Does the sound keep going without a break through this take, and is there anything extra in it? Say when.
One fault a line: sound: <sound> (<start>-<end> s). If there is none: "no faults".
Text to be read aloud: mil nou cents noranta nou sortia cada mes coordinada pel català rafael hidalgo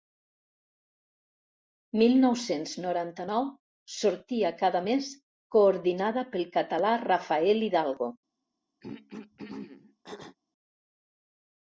sound: throat clearing (8.8-10.4 s)